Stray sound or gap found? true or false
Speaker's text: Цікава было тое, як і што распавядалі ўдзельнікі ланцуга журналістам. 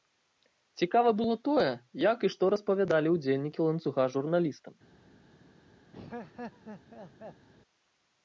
true